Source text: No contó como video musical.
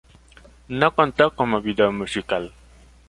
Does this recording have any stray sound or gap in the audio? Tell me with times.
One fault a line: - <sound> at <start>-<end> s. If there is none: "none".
none